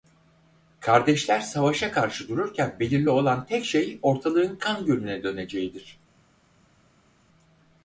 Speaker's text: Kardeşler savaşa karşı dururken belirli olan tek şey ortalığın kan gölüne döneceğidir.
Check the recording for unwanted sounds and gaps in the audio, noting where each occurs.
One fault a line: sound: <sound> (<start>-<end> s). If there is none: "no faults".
no faults